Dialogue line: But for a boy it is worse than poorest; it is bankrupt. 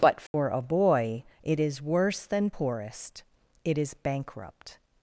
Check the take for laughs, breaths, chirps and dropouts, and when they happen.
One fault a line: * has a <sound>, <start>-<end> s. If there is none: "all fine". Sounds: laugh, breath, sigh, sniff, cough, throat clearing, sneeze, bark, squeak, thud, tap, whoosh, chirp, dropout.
* has a dropout, 0.3-0.3 s